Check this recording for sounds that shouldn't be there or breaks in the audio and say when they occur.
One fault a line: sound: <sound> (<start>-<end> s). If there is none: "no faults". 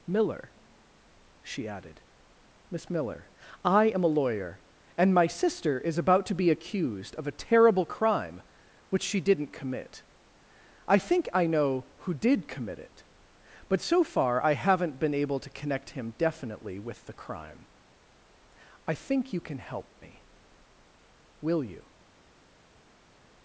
no faults